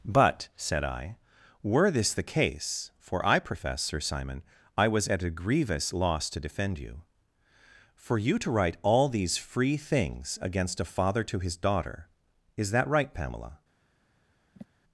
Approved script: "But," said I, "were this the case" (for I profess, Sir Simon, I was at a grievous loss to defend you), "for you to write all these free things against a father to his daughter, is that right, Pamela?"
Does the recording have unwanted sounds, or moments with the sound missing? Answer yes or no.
yes